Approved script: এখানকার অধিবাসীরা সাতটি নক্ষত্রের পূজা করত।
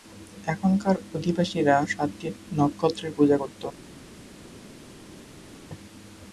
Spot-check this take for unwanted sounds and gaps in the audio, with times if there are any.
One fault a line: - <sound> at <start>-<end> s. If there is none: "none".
none